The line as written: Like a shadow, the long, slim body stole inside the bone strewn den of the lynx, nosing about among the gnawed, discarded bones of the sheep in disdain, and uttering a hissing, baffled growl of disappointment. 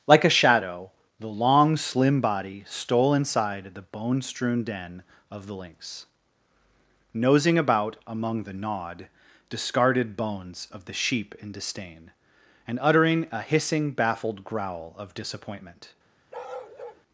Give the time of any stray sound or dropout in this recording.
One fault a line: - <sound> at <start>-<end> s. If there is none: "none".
- bark at 16.3-17.0 s